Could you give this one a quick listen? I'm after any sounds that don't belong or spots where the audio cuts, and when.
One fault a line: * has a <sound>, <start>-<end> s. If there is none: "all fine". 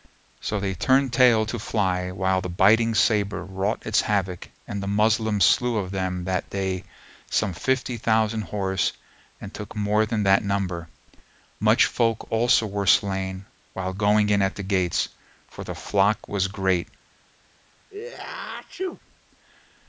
* has a sneeze, 17.9-19.0 s